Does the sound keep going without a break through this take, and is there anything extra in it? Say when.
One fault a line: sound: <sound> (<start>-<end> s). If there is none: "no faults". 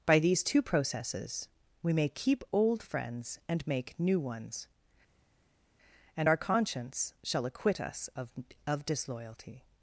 no faults